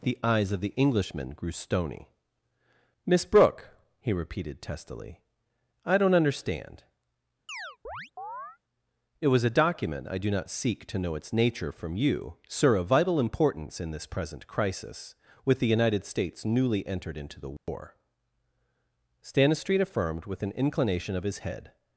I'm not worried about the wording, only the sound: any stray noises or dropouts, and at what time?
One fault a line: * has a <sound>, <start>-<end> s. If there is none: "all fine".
* has a chirp, 7.5-8.6 s
* has a dropout, 17.6-17.7 s